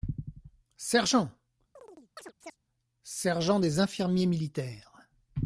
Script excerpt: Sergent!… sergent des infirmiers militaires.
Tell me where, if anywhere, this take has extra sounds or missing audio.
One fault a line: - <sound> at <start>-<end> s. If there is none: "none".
- chirp at 1.8-2.6 s